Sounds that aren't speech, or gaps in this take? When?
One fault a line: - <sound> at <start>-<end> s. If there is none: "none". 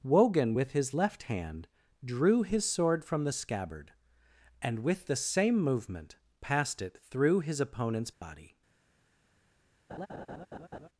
- dropout at 8.1-8.2 s
- laugh at 9.9-10.9 s